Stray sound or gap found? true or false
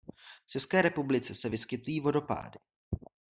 false